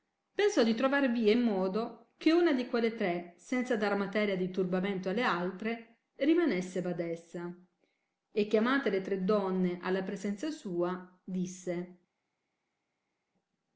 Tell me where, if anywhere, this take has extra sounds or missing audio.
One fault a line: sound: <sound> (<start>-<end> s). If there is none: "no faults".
no faults